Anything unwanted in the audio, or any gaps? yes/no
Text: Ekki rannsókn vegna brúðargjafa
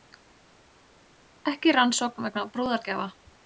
no